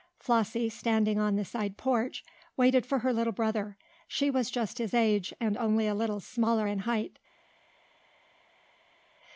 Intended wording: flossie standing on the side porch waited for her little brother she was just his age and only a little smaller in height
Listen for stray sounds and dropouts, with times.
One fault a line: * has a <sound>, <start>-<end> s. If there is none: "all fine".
all fine